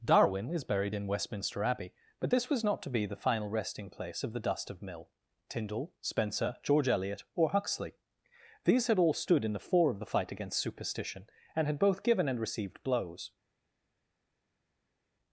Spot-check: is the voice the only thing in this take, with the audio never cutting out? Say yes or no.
yes